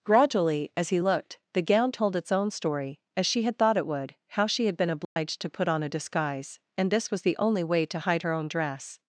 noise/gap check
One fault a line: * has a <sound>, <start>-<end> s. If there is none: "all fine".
* has a dropout, 5.0-5.2 s